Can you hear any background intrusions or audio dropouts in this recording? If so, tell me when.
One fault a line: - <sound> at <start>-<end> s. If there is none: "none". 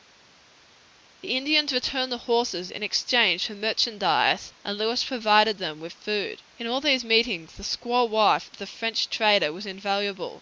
none